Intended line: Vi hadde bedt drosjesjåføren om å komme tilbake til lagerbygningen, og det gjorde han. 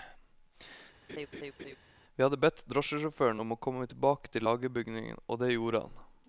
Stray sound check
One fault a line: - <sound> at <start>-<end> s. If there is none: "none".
- laugh at 1.1-1.8 s